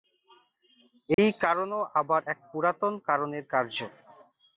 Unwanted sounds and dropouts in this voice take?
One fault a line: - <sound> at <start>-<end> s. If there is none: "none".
- dropout at 1.1-1.2 s